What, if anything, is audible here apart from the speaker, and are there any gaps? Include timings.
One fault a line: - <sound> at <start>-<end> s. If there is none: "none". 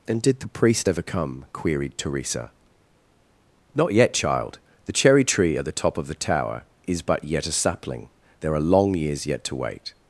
none